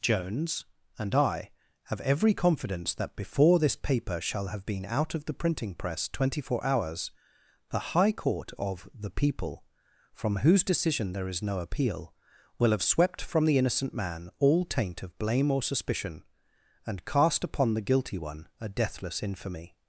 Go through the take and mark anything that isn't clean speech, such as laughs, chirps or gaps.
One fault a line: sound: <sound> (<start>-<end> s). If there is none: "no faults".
no faults